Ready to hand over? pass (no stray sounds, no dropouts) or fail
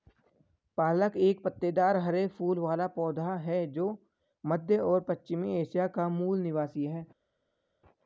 pass